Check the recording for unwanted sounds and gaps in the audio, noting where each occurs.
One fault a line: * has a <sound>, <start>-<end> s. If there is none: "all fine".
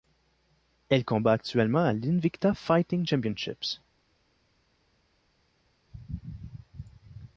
all fine